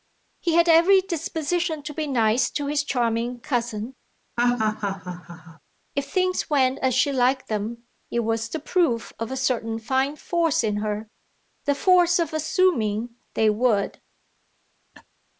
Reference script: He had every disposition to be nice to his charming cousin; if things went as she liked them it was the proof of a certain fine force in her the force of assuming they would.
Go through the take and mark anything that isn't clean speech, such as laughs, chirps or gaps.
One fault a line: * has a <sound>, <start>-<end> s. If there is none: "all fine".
* has a laugh, 4.4-5.6 s
* has a laugh, 14.9-15.0 s